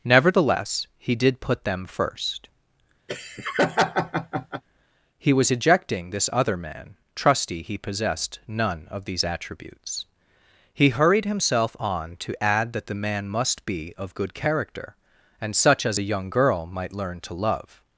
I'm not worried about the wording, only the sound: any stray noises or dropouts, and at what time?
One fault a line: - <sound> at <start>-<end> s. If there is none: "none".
- laugh at 3.1-4.6 s